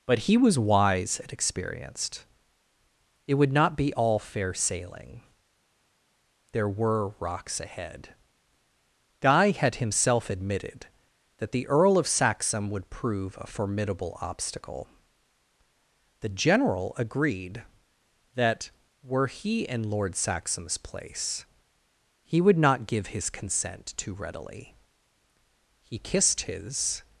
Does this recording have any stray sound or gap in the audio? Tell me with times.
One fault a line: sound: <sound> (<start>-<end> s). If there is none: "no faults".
no faults